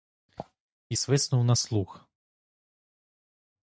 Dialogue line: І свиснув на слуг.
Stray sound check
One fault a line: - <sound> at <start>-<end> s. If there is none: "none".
none